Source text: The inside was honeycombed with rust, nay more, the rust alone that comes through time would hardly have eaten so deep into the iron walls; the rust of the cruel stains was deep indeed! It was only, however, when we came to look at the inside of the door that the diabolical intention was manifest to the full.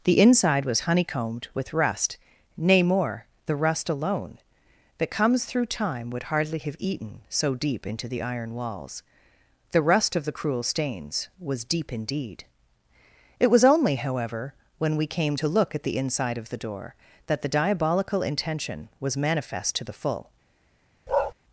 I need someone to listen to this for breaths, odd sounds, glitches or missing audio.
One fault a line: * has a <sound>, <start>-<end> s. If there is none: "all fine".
* has a bark, 21.1-21.3 s